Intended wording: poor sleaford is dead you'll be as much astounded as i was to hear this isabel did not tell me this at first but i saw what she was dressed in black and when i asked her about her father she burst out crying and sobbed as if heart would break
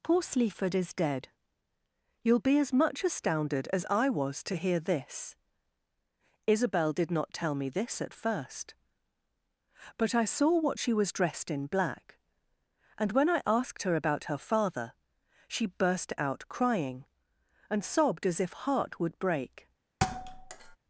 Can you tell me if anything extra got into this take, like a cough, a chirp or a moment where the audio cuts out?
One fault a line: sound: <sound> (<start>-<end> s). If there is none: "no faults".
sound: thud (20.0-20.8 s)